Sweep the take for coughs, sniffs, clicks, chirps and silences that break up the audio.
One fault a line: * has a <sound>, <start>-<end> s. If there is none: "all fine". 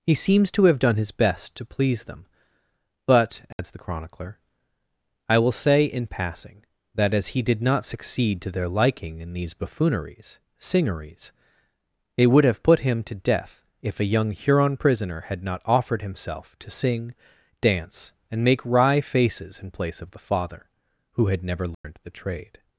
* has a dropout, 3.5-3.6 s
* has a dropout, 21.7-21.8 s